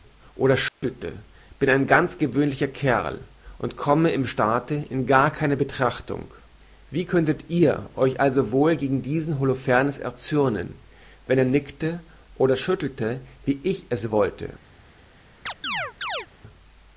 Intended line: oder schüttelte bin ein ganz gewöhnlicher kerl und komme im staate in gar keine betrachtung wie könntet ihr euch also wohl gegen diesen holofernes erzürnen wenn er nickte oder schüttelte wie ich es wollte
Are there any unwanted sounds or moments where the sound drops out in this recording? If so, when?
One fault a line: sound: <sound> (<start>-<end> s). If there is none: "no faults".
sound: dropout (0.7-0.8 s)
sound: chirp (15.5-16.3 s)